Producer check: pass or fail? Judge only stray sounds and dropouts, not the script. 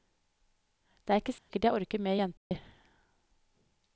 fail